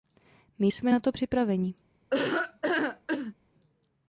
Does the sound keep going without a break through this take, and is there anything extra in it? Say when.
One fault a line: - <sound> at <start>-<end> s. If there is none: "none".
- laugh at 2.1-3.3 s